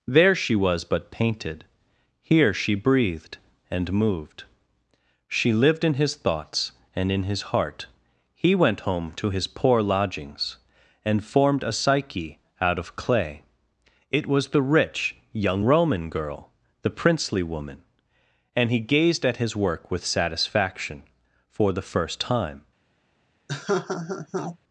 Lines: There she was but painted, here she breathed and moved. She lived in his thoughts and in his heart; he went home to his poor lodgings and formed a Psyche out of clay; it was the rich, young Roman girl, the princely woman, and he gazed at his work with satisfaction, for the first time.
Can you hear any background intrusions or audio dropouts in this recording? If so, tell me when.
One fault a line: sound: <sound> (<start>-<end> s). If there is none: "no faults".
sound: laugh (23.5-24.6 s)